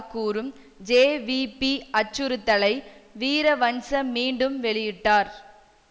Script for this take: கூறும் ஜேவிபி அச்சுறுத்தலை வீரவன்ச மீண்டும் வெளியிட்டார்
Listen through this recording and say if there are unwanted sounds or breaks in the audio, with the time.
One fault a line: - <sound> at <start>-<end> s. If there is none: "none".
none